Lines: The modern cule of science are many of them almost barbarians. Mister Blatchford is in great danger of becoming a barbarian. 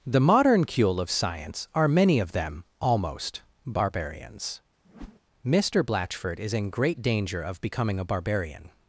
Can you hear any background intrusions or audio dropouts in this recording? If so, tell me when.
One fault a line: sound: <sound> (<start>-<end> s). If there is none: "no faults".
sound: whoosh (4.8-5.2 s)